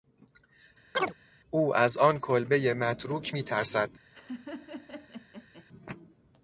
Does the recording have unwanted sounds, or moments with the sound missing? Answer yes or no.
yes